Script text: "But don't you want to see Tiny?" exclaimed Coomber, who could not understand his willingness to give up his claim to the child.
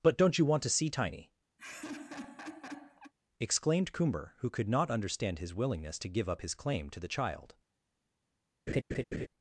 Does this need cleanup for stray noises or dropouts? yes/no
yes